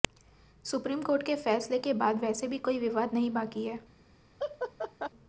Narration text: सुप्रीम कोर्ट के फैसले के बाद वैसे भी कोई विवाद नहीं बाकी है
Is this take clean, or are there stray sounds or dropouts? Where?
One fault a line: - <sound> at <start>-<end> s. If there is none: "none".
- laugh at 4.4-5.1 s